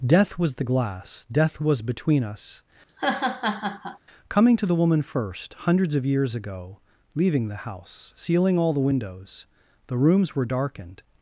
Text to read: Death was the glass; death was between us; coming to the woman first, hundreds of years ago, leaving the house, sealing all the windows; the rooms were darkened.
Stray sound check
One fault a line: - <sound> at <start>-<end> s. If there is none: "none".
- laugh at 2.9-4.0 s